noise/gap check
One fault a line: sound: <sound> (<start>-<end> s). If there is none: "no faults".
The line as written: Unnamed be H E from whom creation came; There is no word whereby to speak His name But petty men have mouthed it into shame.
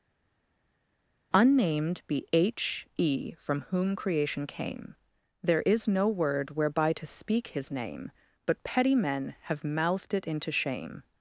no faults